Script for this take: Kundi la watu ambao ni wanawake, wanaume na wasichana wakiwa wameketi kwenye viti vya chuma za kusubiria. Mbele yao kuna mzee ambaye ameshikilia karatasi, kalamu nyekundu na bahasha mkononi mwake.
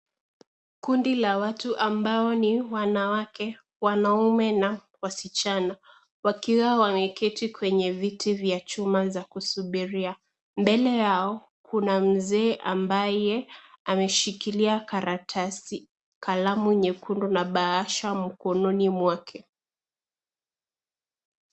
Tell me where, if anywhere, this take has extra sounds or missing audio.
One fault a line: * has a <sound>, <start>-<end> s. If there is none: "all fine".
all fine